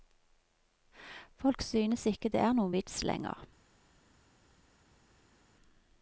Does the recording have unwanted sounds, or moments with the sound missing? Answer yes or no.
no